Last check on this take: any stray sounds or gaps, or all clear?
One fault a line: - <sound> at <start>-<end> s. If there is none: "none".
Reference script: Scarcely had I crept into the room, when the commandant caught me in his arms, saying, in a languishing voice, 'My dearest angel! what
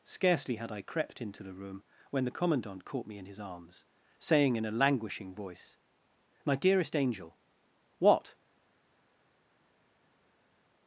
none